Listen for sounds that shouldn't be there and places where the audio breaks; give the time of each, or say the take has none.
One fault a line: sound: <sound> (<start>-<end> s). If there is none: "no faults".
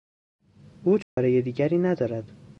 sound: dropout (1.0-1.2 s)